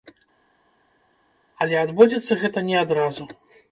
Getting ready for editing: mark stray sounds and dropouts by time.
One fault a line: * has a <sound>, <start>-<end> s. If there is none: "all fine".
all fine